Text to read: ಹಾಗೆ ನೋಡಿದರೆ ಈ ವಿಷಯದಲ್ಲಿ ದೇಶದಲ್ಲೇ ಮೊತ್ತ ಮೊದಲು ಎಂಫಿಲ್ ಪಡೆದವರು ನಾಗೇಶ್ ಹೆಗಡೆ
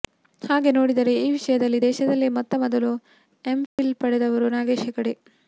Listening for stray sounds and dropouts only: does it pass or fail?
fail